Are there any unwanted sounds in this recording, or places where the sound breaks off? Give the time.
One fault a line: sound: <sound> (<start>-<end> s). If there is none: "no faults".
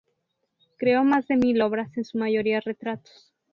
no faults